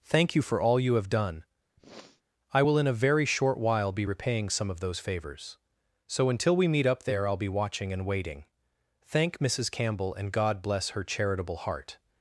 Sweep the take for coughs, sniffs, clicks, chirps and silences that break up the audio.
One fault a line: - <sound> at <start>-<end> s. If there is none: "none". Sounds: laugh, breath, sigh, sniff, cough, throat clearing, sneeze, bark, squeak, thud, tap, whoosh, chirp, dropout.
- sniff at 1.8-2.2 s